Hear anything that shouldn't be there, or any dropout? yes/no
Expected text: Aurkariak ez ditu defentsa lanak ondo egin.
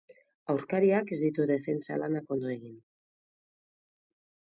no